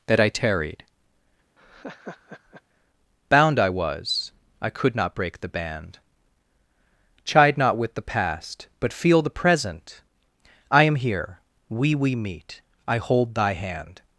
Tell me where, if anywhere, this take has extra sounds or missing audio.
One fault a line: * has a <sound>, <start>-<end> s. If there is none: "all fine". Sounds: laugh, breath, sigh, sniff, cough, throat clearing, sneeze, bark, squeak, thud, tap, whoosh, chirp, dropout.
* has a laugh, 1.6-2.6 s